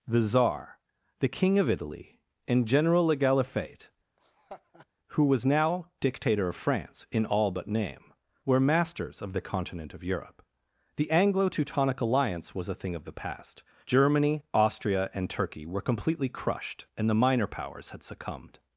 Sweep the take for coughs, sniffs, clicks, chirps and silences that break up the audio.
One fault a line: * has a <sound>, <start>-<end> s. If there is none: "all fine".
* has a laugh, 4.2-4.9 s